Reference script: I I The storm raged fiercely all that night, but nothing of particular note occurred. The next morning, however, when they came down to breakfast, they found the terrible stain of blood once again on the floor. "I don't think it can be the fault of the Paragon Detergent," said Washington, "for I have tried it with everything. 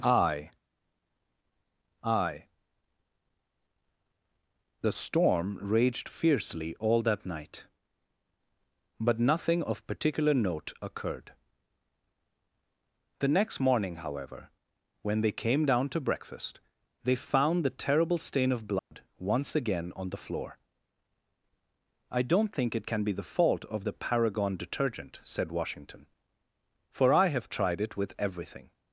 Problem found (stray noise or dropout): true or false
true